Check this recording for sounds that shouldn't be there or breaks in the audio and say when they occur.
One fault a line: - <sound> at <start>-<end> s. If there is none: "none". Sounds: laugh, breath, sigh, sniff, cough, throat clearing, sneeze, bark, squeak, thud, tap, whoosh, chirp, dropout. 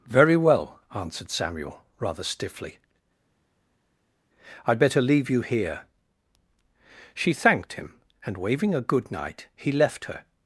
none